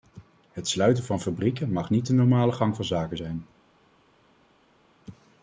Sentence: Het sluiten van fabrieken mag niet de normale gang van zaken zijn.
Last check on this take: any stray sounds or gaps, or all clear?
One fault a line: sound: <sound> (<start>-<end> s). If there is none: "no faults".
no faults